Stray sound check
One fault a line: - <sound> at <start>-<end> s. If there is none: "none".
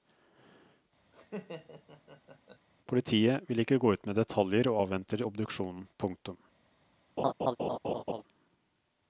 - laugh at 1.1-2.7 s
- laugh at 7.2-8.2 s